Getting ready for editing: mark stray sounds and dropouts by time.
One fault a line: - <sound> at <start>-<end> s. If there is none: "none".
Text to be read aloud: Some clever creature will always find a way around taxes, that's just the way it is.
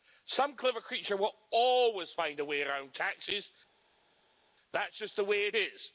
none